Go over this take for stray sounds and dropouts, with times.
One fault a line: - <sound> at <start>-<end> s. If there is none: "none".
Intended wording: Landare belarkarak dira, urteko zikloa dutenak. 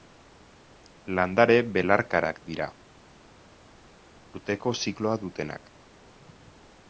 none